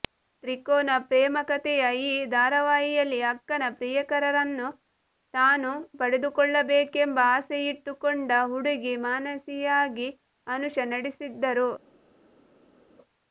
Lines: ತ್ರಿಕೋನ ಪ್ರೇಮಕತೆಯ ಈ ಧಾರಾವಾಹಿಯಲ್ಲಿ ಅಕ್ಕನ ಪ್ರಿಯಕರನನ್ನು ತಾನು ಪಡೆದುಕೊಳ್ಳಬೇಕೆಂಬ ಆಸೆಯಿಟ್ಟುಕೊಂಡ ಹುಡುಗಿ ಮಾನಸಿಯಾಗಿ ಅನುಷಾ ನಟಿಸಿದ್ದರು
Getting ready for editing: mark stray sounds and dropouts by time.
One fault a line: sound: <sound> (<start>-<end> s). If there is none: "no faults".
no faults